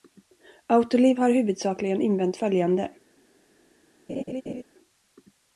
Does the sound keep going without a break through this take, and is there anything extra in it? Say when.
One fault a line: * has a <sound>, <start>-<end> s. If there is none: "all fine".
* has a laugh, 4.1-4.6 s